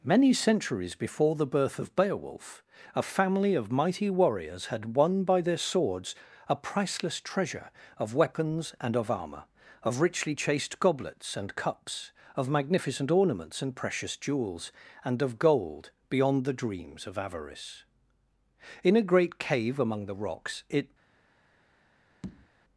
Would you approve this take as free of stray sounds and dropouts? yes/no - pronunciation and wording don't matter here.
no